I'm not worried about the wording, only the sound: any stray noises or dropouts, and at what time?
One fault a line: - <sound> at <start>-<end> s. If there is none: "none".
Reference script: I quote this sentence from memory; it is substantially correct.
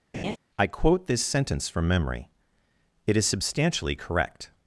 - laugh at 0.1-0.4 s